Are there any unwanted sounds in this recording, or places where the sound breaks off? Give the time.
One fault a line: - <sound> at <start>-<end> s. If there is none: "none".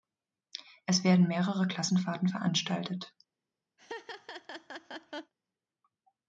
- laugh at 3.8-5.3 s